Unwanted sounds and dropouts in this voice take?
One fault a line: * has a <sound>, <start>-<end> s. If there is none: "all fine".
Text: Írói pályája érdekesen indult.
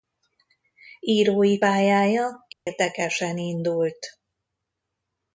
* has a dropout, 2.5-2.7 s